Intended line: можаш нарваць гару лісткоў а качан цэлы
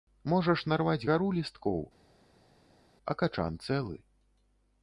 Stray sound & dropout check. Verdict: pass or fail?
pass